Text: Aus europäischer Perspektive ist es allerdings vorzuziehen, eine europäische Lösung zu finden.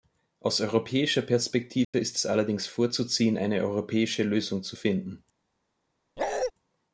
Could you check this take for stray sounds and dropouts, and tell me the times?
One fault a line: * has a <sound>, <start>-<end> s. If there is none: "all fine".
* has a dropout, 1.8-1.9 s
* has a bark, 6.2-6.5 s